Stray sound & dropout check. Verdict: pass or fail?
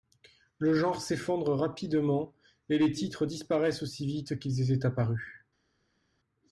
pass